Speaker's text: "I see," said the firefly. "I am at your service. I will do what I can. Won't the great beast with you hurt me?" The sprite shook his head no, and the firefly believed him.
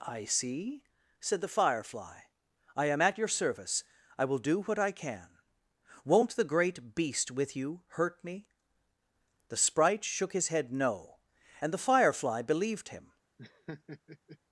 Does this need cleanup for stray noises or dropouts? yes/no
yes